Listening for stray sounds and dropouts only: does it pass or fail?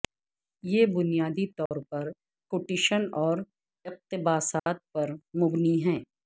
fail